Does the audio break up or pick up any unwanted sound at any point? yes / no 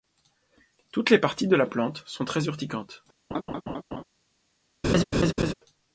yes